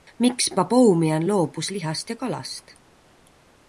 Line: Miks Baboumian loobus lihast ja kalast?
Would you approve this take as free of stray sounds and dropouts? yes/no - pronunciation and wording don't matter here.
yes